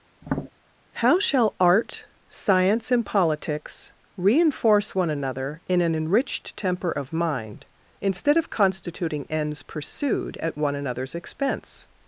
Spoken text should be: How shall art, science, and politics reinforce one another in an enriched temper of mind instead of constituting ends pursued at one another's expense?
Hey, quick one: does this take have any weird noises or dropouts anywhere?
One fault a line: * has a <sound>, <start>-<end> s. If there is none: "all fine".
* has a tap, 0.2-0.5 s